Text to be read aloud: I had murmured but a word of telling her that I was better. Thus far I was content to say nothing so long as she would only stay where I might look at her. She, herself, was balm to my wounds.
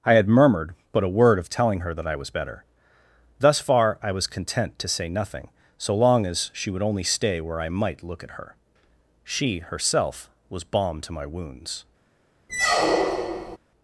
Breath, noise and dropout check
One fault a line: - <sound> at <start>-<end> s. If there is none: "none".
- squeak at 12.5-13.6 s